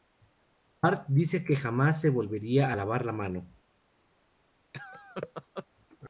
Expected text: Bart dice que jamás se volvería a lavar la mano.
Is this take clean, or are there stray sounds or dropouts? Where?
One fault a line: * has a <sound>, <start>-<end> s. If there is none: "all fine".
* has a laugh, 4.7-5.7 s